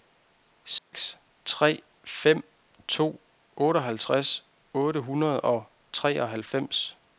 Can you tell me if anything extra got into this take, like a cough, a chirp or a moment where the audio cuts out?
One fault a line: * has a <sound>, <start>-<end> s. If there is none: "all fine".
* has a dropout, 0.8-0.9 s